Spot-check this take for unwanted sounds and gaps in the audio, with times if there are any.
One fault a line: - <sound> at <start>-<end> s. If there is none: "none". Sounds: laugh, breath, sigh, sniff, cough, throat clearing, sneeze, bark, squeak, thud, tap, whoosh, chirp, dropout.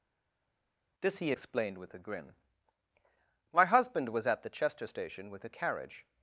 none